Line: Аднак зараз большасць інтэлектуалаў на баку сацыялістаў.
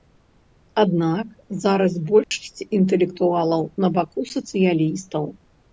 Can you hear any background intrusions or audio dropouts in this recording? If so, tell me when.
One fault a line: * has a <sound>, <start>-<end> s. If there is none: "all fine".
* has a dropout, 2.2-2.3 s